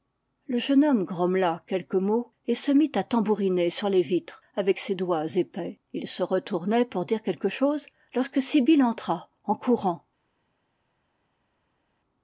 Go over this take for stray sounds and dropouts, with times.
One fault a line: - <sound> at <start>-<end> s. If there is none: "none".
none